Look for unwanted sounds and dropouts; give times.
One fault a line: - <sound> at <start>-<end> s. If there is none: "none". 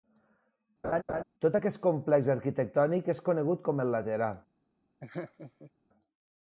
- laugh at 0.8-1.2 s
- laugh at 5.0-5.7 s